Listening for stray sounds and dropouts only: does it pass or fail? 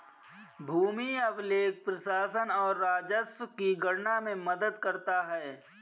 pass